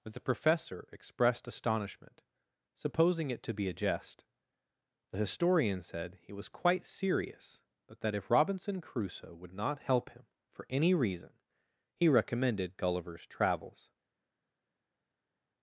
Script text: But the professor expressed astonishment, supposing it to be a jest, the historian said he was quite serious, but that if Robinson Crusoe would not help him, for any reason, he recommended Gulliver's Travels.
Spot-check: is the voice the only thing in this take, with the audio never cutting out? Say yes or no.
yes